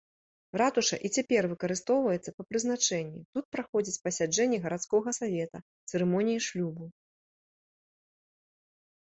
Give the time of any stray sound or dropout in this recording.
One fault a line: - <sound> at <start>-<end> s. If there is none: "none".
none